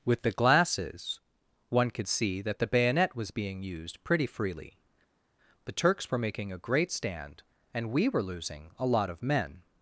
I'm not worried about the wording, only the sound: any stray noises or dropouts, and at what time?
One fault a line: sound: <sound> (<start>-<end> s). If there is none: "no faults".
no faults